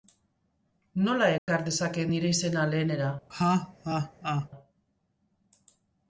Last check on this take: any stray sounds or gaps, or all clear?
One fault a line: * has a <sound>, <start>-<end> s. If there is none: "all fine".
* has a dropout, 1.4-1.5 s
* has a laugh, 3.3-4.5 s